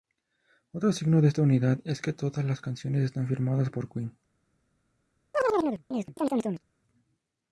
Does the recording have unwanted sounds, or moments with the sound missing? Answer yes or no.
yes